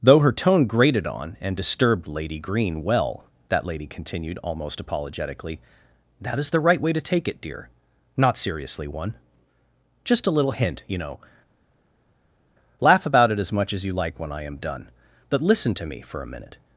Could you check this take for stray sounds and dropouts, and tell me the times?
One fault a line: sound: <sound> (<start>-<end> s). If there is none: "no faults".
no faults